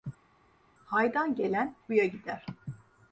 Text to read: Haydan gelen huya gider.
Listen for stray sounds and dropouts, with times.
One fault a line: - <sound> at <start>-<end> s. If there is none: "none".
none